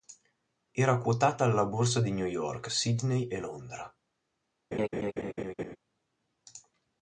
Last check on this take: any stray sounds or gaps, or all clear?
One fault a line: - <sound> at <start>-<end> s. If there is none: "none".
- laugh at 4.7-5.8 s